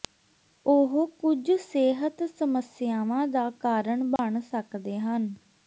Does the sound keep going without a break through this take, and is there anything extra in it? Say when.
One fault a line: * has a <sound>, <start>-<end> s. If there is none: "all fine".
* has a dropout, 4.2-4.2 s